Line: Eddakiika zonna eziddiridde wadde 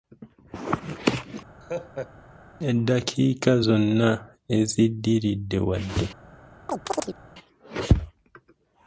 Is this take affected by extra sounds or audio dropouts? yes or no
yes